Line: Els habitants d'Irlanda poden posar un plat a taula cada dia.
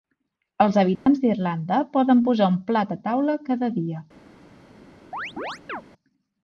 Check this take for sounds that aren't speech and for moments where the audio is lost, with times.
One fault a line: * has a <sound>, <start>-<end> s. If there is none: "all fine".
* has a dropout, 1.0-1.1 s
* has a chirp, 5.1-5.8 s